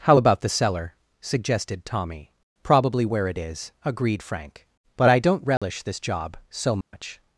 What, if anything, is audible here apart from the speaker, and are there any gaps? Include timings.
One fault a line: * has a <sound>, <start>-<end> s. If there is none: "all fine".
* has a dropout, 5.6-5.6 s
* has a dropout, 6.8-6.9 s